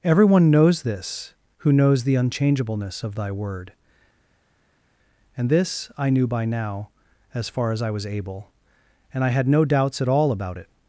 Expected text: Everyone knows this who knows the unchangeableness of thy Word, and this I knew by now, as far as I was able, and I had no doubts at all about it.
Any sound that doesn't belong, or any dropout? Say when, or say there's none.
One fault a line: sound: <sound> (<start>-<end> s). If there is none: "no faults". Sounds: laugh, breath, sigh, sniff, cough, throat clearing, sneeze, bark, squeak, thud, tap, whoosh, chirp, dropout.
no faults